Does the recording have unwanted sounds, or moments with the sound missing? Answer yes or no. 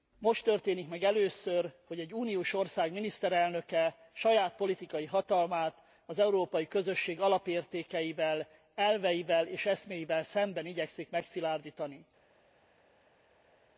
no